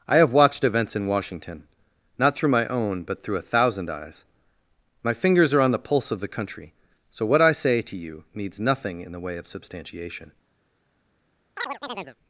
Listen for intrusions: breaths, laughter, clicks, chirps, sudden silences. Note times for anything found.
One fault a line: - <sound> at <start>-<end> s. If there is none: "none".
- chirp at 11.6-12.2 s